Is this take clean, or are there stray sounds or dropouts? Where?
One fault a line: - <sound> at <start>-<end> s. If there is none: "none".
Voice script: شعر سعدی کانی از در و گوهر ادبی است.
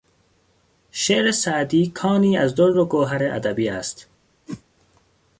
- whoosh at 4.5-4.6 s